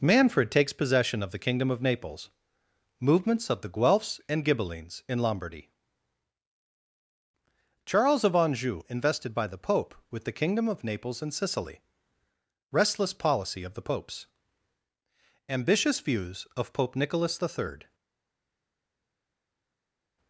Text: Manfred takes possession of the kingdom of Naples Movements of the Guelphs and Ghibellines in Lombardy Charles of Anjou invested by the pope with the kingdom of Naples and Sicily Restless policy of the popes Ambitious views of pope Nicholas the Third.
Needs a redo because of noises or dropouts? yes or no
no